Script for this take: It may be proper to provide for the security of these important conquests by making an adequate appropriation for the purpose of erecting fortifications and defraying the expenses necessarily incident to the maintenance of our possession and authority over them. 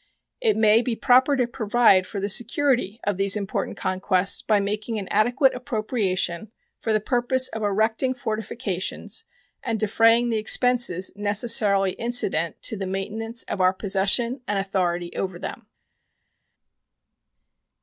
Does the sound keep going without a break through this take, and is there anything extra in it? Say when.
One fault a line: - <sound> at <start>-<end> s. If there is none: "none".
none